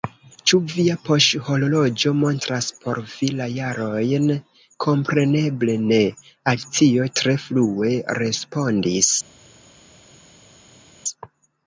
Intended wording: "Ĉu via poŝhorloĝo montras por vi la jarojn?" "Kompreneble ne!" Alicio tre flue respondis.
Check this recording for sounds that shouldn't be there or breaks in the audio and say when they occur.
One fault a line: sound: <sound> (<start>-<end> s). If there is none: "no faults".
no faults